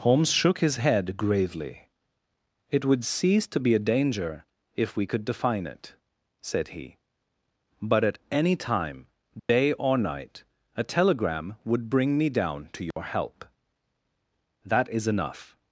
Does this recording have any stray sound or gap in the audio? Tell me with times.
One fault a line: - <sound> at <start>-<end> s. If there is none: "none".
- dropout at 9.4-9.5 s
- dropout at 12.9-13.0 s